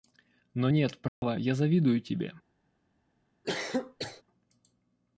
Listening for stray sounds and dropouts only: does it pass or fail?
fail